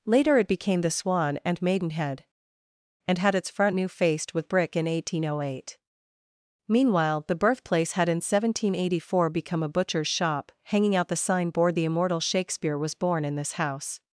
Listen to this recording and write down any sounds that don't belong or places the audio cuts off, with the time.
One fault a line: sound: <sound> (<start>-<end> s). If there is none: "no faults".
no faults